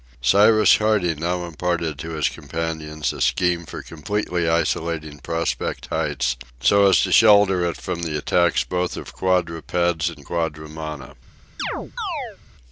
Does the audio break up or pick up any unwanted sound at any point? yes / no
yes